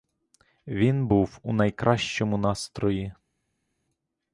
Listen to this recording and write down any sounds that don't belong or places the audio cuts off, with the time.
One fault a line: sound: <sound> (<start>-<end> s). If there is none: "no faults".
no faults